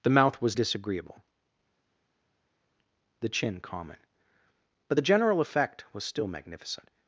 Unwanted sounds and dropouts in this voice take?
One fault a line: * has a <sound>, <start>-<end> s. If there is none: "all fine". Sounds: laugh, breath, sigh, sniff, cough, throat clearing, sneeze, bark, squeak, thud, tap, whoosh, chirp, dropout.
all fine